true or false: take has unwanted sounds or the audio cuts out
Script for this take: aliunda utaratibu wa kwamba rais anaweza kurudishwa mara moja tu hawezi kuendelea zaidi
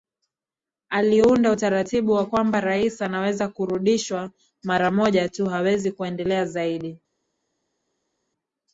false